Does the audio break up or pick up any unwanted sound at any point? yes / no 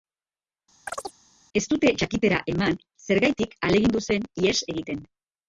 yes